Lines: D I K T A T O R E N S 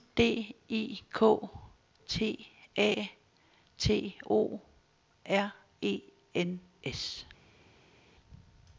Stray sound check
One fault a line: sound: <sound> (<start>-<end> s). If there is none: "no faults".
no faults